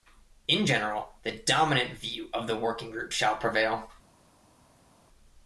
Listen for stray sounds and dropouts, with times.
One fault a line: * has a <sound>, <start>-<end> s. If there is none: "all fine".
all fine